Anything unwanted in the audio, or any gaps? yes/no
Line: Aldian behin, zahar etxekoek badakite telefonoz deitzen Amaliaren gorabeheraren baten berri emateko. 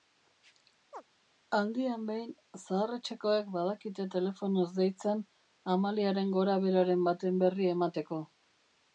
yes